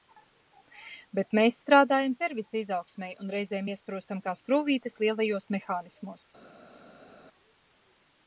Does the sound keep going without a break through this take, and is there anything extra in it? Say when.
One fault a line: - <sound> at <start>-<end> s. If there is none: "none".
none